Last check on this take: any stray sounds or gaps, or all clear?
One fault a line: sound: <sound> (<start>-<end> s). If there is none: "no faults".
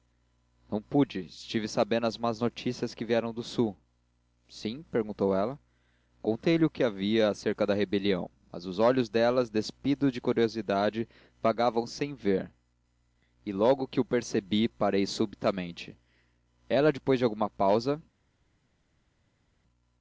no faults